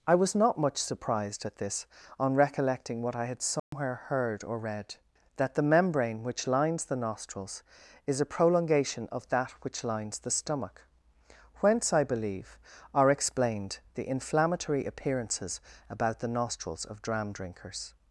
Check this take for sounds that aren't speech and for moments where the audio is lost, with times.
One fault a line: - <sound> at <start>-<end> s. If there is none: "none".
- dropout at 3.6-3.7 s